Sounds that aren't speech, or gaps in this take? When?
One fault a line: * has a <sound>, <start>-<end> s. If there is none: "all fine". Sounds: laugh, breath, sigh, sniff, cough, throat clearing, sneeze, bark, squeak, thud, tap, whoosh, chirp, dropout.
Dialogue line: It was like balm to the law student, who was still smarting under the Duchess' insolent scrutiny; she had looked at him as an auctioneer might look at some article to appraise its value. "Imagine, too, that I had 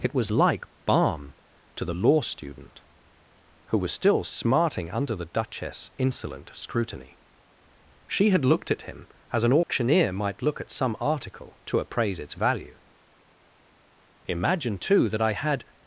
* has a dropout, 9.6-9.7 s